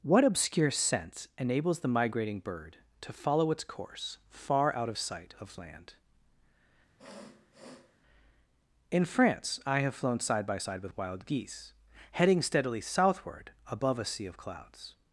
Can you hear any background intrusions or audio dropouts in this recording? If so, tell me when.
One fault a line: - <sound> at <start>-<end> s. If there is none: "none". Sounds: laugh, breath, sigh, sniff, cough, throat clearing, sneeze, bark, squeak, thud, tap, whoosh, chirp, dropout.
- sniff at 7.0-8.0 s